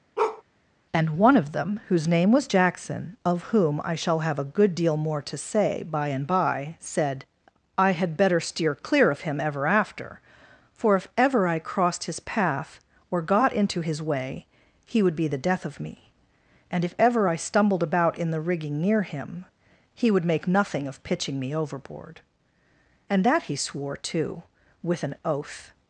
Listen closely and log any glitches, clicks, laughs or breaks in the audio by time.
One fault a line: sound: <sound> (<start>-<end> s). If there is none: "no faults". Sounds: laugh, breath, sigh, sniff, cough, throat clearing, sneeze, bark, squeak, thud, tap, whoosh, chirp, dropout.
sound: bark (0.2-0.4 s)